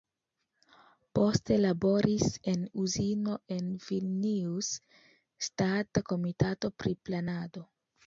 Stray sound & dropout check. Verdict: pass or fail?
pass